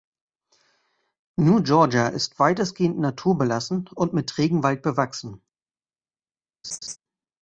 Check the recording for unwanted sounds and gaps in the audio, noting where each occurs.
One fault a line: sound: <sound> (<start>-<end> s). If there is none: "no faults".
sound: laugh (6.6-7.0 s)